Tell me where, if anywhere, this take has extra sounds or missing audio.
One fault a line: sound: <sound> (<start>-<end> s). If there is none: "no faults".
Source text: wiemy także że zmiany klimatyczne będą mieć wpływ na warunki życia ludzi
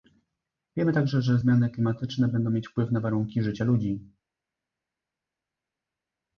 no faults